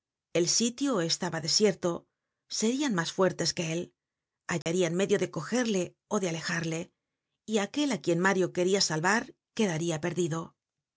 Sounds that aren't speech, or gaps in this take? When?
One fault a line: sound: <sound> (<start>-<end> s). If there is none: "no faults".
sound: dropout (4.6-4.7 s)